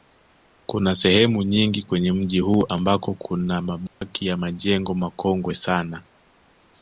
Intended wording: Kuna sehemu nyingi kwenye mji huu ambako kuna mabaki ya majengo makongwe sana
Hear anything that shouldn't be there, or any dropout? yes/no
yes